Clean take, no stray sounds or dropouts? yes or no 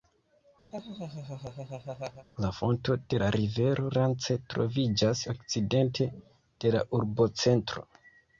no